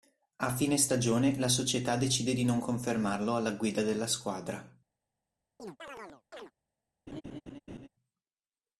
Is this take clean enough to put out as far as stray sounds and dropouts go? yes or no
no